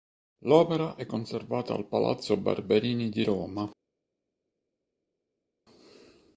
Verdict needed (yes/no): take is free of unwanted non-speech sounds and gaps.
yes